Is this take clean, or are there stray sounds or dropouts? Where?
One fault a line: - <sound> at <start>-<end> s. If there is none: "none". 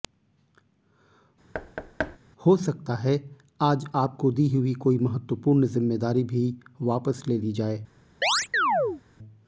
- thud at 1.5-2.2 s
- chirp at 8.2-9.0 s